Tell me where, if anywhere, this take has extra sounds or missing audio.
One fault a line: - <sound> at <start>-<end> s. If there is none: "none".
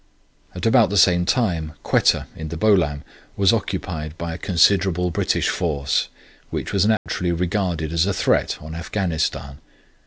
- dropout at 7.0-7.1 s